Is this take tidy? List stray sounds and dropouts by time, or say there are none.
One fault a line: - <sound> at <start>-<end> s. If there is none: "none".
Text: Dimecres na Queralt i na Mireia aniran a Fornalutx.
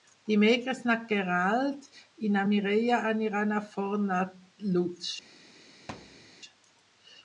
- thud at 5.9-6.3 s